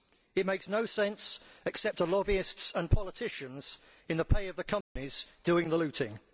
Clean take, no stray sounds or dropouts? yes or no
no